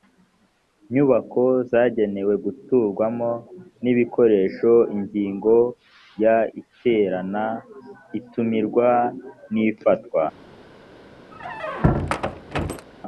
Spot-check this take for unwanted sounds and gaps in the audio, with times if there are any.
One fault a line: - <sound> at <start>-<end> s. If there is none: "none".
- squeak at 11.3-12.9 s